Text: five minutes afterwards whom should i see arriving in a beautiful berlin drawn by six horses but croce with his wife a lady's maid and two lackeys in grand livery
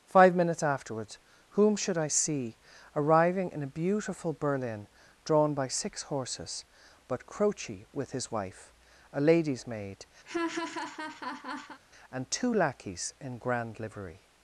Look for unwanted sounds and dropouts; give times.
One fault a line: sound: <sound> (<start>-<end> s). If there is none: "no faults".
sound: laugh (10.2-11.8 s)